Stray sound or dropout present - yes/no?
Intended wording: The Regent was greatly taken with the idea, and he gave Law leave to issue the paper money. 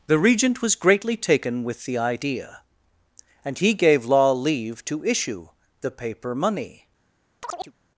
yes